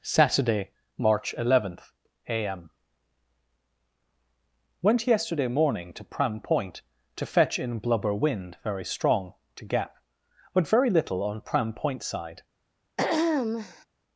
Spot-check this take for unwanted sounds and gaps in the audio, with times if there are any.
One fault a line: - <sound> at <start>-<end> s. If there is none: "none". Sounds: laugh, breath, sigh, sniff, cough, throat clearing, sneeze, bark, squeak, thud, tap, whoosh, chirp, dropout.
- throat clearing at 13.0-13.9 s